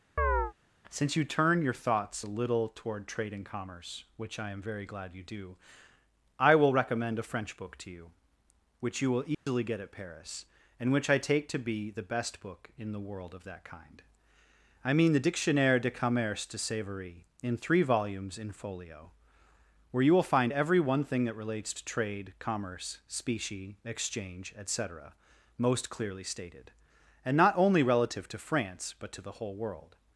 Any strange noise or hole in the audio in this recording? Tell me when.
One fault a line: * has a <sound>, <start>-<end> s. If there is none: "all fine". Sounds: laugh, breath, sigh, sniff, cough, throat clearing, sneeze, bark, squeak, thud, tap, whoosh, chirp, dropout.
* has a chirp, 0.2-0.5 s
* has a dropout, 9.3-9.5 s